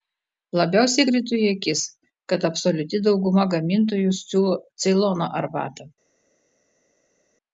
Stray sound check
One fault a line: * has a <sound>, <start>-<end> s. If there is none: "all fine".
all fine